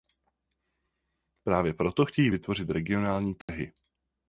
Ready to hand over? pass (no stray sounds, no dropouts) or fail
fail